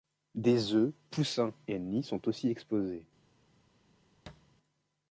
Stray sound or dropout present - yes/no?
yes